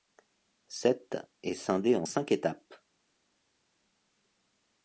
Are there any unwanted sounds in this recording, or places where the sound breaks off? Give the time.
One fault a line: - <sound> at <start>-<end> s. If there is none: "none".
none